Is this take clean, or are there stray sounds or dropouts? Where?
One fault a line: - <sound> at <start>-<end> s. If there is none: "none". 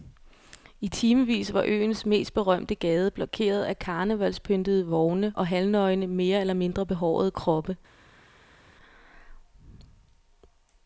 none